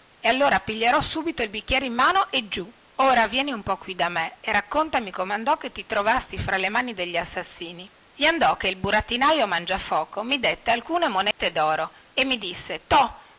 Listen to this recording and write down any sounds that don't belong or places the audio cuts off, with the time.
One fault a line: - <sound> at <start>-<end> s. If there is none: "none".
- dropout at 11.3-11.4 s